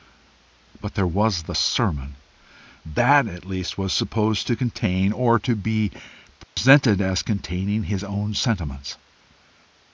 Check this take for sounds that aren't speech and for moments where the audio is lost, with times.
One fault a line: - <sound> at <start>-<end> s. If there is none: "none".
- dropout at 6.4-6.6 s